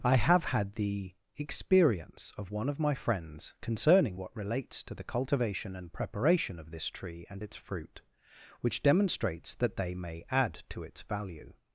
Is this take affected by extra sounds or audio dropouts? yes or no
no